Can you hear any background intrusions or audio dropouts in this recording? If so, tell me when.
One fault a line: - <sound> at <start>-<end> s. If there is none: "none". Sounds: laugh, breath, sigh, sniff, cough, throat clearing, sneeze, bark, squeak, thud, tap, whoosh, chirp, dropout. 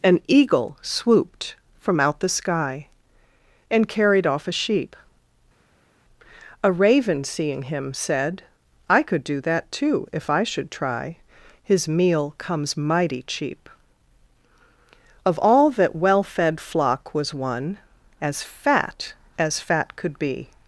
none